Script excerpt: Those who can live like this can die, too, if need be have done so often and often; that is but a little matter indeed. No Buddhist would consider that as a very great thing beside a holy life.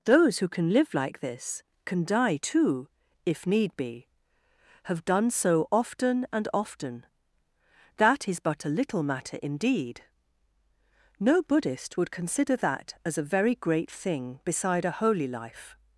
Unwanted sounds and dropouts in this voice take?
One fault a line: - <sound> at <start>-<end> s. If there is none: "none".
none